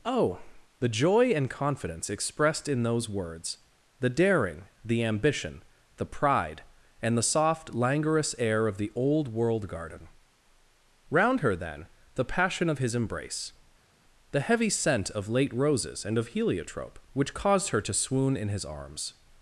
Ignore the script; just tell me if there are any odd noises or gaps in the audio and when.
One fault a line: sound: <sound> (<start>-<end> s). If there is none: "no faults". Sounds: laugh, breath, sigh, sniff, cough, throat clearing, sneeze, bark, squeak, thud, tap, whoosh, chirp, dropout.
no faults